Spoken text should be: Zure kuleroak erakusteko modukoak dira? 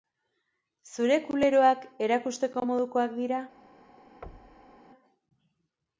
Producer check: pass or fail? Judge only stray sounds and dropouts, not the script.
fail